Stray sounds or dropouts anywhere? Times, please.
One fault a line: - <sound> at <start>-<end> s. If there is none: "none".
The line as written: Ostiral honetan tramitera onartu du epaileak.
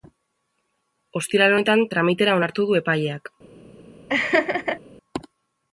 - laugh at 4.1-4.8 s